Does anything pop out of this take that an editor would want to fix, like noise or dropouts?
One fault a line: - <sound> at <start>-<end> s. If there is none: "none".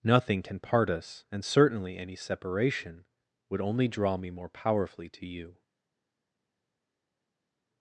none